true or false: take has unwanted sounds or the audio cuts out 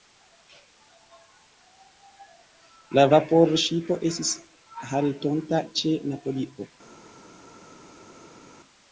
false